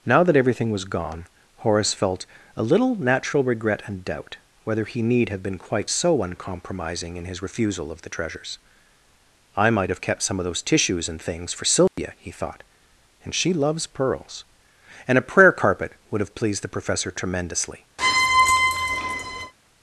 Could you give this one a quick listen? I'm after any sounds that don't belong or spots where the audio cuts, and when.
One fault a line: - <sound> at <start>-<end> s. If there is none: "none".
- dropout at 11.9-12.0 s
- squeak at 18.0-19.5 s